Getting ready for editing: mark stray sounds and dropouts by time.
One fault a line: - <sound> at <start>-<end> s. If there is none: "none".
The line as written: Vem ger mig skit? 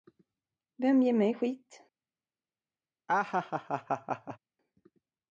- laugh at 3.1-4.4 s